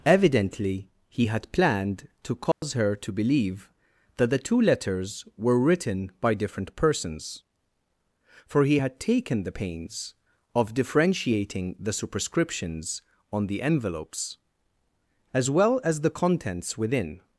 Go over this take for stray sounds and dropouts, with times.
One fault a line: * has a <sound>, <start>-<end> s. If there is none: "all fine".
* has a dropout, 2.5-2.6 s